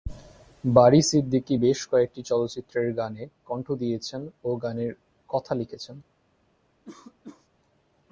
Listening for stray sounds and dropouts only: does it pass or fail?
fail